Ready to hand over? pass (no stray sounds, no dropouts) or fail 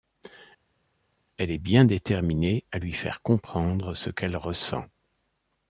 pass